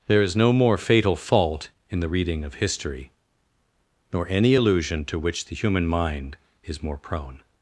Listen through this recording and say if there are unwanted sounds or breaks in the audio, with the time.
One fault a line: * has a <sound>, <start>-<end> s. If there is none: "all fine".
all fine